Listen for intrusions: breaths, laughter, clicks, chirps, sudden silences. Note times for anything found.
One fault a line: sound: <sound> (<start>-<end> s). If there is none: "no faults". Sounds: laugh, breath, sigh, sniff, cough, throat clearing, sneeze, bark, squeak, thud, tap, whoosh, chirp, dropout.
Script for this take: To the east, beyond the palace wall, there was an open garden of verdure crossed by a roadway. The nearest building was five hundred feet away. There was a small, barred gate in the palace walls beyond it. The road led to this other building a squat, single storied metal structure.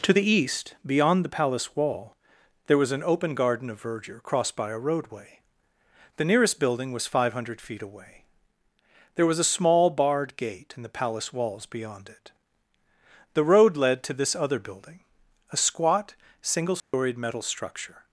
sound: dropout (16.8-16.9 s)